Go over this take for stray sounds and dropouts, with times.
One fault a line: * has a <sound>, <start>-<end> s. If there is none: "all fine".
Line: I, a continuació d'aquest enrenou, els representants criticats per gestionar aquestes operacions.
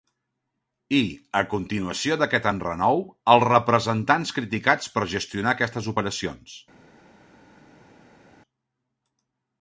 all fine